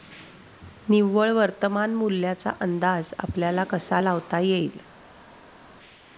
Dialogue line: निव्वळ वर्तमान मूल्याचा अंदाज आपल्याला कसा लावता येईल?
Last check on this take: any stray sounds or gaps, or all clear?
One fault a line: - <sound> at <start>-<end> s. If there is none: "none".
none